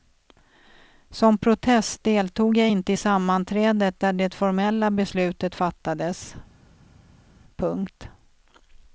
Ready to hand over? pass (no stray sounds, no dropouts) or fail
pass